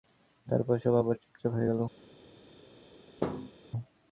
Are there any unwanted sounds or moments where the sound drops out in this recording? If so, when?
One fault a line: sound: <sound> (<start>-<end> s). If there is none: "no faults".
sound: thud (3.2-3.5 s)